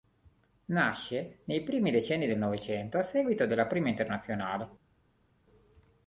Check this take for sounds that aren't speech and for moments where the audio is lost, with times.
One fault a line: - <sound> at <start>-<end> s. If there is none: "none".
none